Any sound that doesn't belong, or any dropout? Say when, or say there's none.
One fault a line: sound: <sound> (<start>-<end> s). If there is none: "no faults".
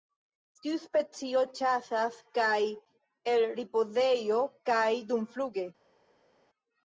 no faults